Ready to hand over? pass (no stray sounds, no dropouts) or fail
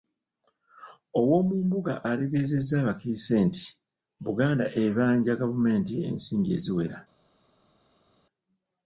pass